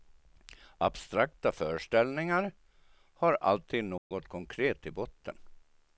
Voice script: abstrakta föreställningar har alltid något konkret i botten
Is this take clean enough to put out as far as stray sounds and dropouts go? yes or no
no